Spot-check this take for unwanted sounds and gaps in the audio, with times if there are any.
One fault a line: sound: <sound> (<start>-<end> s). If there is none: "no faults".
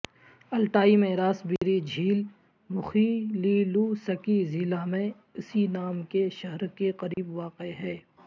sound: dropout (1.6-1.6 s)
sound: dropout (7.1-7.2 s)